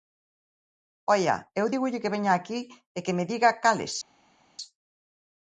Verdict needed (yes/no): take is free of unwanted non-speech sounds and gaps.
yes